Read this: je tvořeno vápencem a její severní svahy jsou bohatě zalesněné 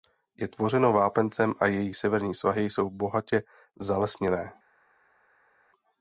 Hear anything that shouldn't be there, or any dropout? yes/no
no